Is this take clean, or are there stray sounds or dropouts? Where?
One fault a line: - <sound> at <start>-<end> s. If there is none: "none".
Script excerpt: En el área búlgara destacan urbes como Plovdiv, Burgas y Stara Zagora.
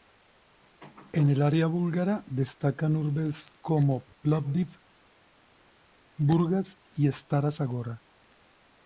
none